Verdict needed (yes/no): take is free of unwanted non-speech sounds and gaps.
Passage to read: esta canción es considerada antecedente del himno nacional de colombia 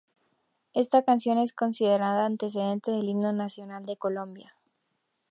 yes